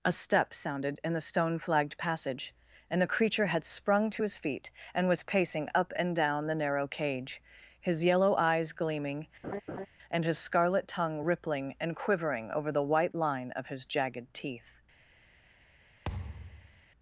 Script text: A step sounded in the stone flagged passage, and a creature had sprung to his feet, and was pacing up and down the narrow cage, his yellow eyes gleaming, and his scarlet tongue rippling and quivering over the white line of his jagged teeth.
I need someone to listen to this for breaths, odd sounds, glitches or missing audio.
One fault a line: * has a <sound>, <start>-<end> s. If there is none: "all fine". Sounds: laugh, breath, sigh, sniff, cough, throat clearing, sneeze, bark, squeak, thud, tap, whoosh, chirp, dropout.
* has a laugh, 9.4-9.9 s
* has a thud, 16.1-16.8 s